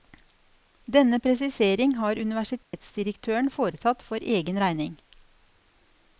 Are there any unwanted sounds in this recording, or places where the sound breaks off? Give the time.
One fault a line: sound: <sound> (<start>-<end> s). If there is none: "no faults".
sound: dropout (2.6-2.7 s)